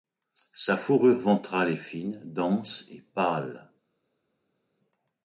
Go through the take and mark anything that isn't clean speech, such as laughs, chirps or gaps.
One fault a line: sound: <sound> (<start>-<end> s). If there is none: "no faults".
no faults